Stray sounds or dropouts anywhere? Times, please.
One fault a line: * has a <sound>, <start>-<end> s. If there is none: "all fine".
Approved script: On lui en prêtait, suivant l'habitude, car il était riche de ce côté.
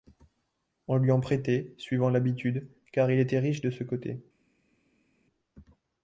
all fine